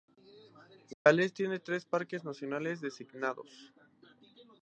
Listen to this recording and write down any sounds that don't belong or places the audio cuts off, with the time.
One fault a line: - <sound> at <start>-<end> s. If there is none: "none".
- dropout at 0.9-1.1 s